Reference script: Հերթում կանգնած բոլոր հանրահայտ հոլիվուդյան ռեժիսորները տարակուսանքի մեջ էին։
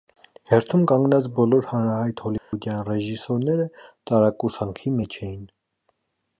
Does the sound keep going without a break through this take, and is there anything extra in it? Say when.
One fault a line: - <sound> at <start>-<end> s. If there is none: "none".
- dropout at 2.4-2.5 s